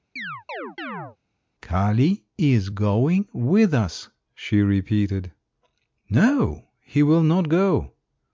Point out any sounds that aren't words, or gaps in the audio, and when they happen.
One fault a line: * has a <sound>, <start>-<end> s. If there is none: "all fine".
* has a chirp, 0.2-1.2 s